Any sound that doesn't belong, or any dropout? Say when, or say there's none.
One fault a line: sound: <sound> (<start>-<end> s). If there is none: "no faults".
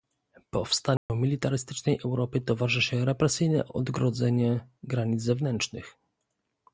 sound: dropout (1.0-1.1 s)